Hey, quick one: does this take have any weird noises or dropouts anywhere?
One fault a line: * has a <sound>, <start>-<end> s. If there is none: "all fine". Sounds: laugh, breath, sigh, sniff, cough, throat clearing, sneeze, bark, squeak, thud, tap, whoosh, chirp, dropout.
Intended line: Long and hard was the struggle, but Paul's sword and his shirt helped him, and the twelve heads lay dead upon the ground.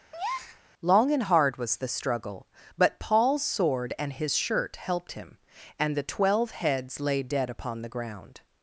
* has a breath, 0.1-0.6 s